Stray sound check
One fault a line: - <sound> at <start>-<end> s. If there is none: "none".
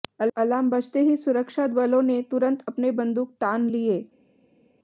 none